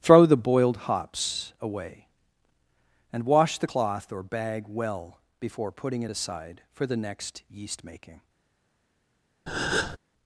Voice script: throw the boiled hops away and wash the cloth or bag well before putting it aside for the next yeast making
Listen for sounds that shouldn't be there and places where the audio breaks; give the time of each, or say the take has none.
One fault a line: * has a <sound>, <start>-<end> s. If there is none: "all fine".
* has a breath, 9.5-10.0 s